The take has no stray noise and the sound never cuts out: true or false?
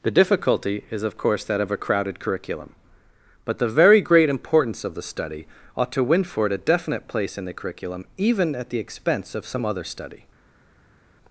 true